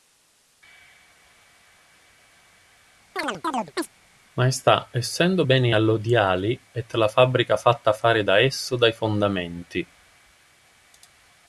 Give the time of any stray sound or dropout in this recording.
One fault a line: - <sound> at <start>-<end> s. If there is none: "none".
- chirp at 3.2-3.9 s